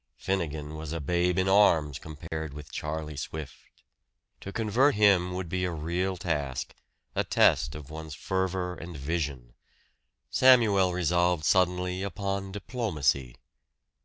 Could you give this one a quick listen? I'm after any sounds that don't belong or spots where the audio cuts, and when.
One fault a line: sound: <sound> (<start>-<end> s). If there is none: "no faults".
sound: dropout (2.3-2.3 s)